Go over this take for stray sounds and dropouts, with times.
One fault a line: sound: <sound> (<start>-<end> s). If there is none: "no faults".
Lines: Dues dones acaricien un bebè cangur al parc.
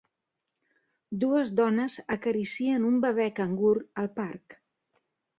no faults